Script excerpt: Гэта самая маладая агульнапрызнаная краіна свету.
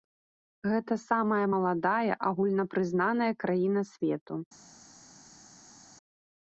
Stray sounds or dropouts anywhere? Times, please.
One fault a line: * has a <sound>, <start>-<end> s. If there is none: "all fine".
all fine